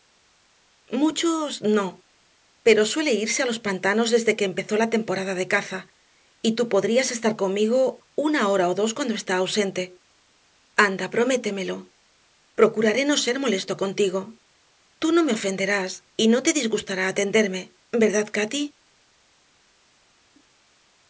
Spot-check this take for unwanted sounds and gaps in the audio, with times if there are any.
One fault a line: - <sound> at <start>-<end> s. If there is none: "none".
none